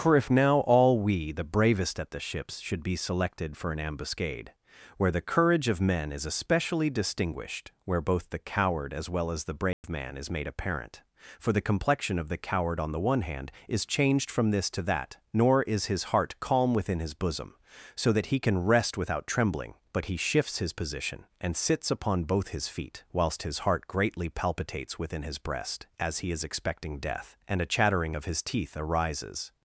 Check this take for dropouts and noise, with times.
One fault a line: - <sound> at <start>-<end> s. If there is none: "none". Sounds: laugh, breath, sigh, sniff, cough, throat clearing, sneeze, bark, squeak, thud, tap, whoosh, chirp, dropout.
- dropout at 9.7-9.8 s